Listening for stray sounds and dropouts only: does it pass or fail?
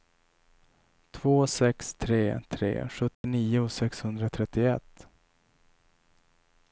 fail